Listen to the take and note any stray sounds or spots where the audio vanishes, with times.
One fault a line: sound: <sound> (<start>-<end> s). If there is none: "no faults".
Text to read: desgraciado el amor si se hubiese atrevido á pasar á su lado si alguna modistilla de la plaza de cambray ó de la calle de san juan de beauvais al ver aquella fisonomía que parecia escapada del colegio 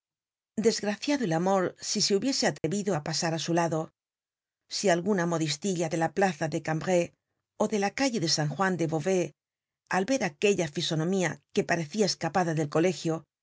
sound: dropout (2.6-2.6 s)